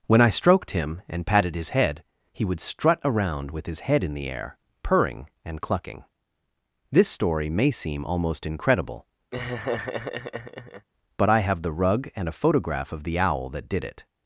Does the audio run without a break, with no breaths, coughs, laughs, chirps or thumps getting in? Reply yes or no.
no